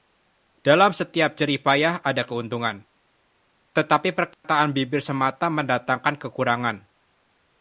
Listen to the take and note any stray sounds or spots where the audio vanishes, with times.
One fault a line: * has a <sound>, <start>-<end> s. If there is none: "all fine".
* has a dropout, 4.3-4.4 s